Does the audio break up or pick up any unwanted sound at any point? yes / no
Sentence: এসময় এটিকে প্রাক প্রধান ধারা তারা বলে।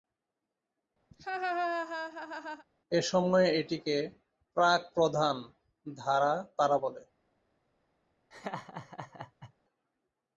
yes